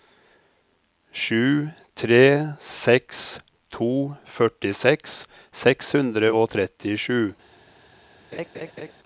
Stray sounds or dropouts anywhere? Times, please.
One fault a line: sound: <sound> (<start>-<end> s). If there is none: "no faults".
sound: laugh (8.3-8.9 s)